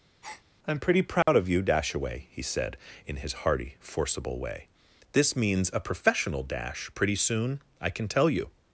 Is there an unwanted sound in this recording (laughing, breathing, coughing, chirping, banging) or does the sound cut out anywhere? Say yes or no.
yes